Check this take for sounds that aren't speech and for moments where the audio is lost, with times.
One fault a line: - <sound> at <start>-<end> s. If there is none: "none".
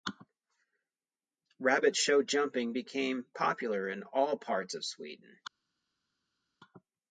none